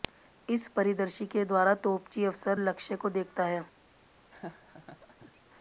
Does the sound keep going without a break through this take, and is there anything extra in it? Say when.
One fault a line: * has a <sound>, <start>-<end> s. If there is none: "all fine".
* has a laugh, 4.3-5.4 s